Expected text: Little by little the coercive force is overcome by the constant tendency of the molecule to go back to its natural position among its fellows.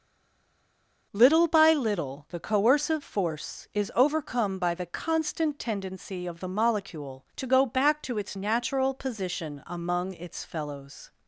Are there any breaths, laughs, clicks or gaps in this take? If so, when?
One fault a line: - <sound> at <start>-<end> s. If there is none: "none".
none